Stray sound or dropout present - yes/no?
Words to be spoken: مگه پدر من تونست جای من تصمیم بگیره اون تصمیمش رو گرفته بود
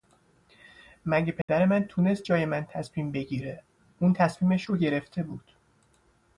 yes